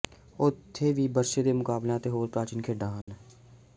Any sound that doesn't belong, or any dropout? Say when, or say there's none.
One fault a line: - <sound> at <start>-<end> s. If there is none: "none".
- dropout at 3.0-3.1 s